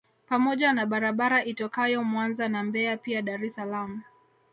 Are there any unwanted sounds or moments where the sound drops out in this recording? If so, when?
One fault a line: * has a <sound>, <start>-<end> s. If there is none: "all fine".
all fine